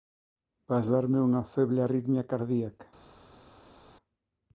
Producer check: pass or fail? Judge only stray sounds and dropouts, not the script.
pass